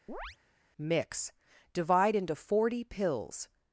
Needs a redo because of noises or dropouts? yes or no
yes